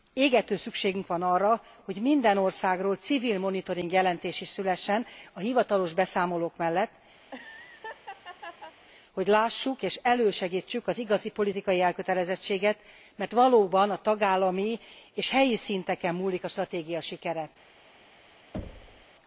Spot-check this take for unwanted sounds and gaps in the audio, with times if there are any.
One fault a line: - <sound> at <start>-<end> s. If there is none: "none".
- laugh at 7.2-8.8 s
- thud at 18.5-19.1 s